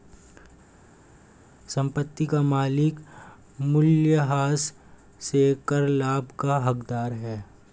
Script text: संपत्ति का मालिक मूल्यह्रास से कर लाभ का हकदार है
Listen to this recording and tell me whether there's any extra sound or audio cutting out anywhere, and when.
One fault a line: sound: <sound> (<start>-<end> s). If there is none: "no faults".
no faults